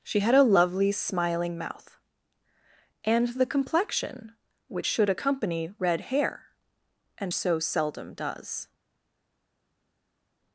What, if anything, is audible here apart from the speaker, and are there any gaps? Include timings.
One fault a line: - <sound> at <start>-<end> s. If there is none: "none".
none